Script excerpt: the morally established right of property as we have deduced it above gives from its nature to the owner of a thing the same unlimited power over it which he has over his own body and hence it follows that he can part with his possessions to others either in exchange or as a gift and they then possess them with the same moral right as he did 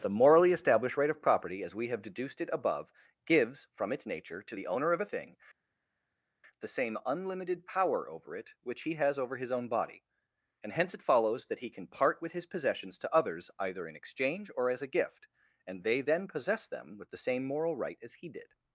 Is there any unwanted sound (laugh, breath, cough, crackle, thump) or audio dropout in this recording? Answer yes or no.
no